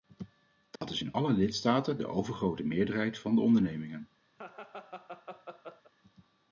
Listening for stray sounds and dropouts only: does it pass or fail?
fail